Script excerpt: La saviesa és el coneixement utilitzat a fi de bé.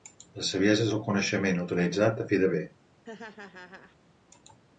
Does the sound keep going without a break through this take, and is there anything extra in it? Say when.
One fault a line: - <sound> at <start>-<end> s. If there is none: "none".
- laugh at 3.0-4.0 s